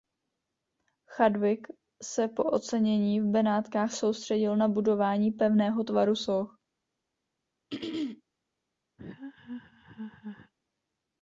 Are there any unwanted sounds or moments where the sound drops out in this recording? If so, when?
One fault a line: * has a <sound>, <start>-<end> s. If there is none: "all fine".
* has a throat clearing, 7.7-8.2 s
* has a laugh, 9.0-10.5 s